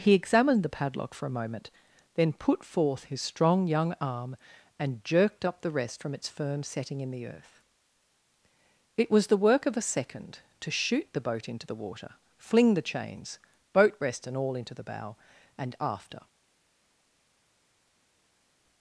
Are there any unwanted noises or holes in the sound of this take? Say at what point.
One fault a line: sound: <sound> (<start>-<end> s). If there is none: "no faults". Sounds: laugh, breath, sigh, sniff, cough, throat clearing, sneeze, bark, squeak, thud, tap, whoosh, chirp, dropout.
no faults